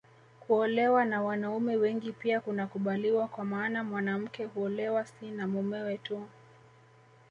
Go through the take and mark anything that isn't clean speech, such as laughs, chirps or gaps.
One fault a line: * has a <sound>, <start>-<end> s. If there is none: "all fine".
all fine